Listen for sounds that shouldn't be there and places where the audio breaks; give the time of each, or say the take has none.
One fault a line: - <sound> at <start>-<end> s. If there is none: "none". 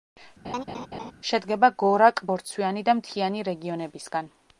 - laugh at 0.4-1.1 s